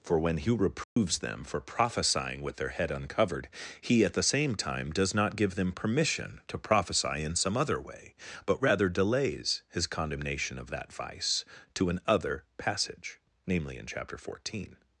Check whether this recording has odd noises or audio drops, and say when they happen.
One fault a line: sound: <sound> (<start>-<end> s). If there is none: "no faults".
sound: dropout (0.8-1.0 s)